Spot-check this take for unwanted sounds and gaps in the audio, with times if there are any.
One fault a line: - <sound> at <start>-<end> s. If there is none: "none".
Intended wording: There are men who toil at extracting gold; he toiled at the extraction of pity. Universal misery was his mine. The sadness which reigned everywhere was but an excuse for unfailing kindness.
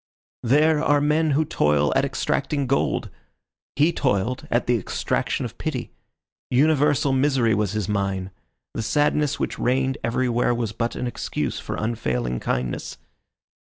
none